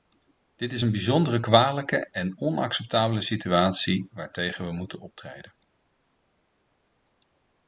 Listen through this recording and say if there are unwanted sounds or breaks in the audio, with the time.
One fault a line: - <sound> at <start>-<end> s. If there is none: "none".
none